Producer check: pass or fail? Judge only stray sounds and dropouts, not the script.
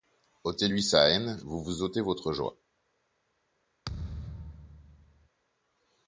fail